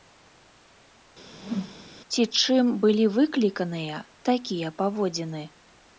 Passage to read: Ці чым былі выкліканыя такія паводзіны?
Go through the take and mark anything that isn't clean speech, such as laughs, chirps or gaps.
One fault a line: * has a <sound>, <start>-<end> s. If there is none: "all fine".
* has a whoosh, 1.3-1.9 s